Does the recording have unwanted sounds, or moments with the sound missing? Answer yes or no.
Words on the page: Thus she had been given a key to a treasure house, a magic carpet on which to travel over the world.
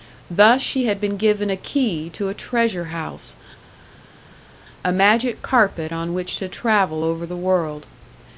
no